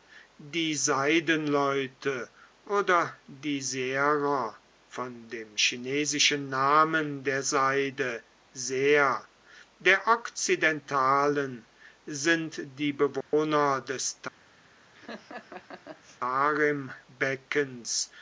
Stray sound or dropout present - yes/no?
yes